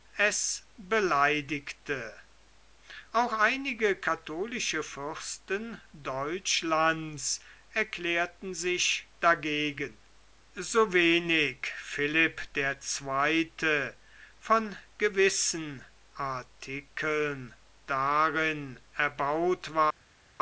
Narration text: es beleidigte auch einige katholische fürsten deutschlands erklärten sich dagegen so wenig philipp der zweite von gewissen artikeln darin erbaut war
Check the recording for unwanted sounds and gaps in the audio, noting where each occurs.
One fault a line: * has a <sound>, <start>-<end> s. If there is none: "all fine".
all fine